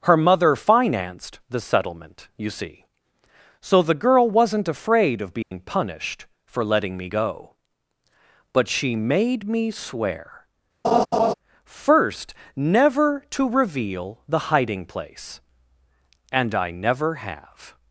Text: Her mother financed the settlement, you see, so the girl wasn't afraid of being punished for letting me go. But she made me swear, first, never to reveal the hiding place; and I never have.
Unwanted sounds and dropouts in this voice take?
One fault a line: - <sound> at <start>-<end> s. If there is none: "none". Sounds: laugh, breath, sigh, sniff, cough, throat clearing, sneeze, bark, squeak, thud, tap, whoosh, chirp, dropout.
- dropout at 5.4-5.5 s
- laugh at 10.8-11.3 s